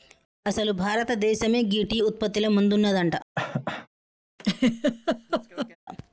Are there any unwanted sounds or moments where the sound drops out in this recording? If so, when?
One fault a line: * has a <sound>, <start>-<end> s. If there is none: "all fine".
* has a cough, 3.4-3.9 s
* has a laugh, 4.4-5.8 s